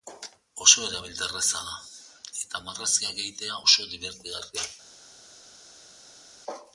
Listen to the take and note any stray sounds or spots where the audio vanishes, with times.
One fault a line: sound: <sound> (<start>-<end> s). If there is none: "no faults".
no faults